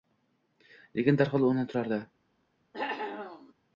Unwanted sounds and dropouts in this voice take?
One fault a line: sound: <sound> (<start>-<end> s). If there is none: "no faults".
sound: cough (2.7-3.5 s)